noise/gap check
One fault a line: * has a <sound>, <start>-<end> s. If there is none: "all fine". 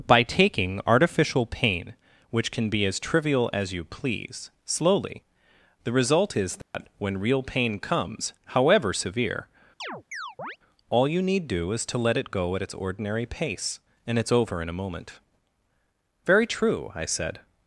* has a dropout, 6.6-6.7 s
* has a chirp, 9.8-10.6 s